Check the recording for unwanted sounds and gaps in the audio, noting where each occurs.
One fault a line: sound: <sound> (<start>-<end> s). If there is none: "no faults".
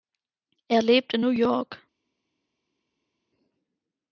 no faults